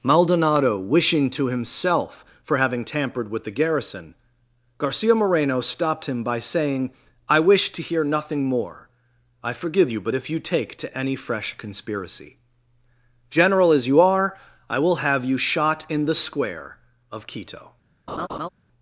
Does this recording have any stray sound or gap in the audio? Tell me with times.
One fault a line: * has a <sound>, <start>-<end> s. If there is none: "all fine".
* has a laugh, 18.1-18.5 s